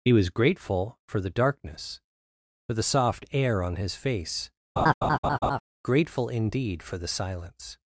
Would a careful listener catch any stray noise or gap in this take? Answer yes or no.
yes